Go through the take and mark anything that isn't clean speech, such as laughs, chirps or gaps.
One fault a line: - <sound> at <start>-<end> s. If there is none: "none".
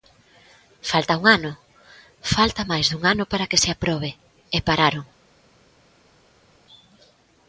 none